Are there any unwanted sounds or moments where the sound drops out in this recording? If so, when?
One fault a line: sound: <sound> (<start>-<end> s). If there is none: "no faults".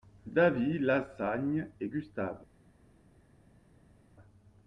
no faults